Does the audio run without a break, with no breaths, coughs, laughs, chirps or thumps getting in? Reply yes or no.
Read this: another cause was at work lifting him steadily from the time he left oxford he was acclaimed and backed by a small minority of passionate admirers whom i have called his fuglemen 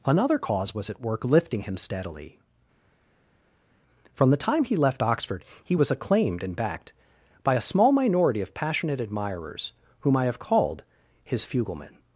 yes